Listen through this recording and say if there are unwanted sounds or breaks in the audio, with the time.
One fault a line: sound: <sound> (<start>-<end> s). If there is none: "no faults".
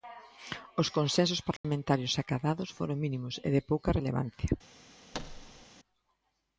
sound: dropout (1.6-1.6 s)
sound: thud (5.1-5.6 s)